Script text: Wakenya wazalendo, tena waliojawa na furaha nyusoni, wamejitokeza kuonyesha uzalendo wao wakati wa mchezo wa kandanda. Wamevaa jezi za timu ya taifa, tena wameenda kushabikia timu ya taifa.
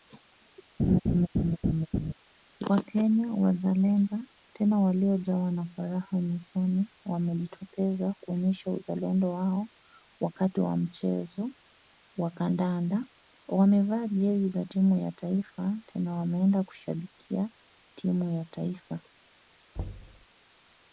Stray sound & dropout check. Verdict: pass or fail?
fail